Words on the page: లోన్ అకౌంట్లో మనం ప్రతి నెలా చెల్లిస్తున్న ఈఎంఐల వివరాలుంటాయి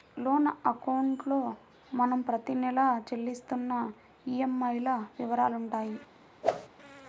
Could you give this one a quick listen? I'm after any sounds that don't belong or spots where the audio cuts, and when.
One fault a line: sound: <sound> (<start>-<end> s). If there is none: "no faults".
sound: whoosh (6.4-6.7 s)